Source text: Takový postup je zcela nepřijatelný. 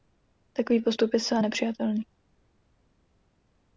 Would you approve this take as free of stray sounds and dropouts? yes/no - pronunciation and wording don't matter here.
yes